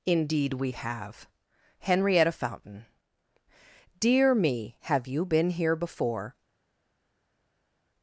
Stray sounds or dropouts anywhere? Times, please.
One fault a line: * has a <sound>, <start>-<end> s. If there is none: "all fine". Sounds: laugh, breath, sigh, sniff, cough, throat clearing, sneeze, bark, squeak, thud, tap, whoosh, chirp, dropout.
all fine